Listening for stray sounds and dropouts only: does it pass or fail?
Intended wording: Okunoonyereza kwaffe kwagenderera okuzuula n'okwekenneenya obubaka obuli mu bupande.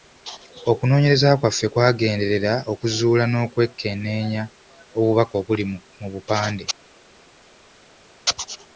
pass